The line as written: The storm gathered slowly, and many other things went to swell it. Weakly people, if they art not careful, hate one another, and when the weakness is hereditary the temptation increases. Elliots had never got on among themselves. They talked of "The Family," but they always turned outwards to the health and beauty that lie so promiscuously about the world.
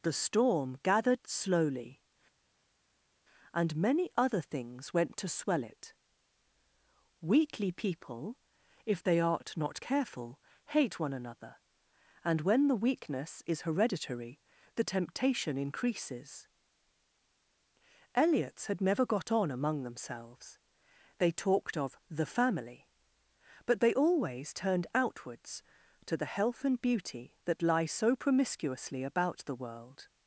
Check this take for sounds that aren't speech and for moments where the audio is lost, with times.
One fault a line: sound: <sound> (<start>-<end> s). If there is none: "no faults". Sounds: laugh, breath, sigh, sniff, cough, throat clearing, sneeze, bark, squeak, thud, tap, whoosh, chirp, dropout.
no faults